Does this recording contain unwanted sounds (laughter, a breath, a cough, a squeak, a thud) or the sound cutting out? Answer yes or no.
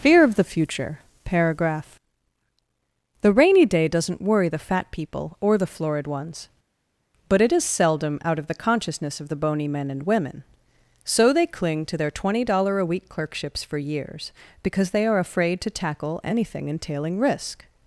no